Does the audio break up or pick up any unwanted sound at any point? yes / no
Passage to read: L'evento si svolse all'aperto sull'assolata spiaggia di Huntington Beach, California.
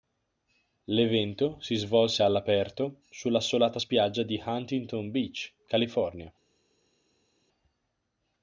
no